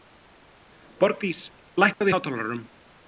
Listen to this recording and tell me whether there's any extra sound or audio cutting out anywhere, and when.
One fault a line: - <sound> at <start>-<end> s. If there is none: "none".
- dropout at 1.9-2.0 s